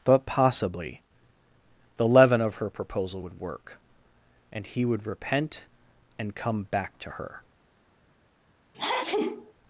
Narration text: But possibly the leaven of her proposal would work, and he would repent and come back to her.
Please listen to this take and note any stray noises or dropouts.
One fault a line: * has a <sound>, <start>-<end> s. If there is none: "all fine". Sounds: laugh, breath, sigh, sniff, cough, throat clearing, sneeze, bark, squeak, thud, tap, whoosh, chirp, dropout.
* has a sneeze, 8.7-9.5 s